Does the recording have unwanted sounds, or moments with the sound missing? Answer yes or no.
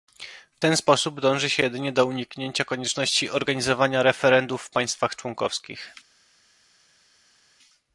no